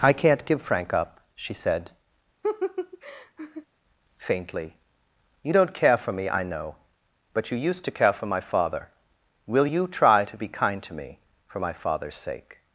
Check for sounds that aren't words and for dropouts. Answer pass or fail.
fail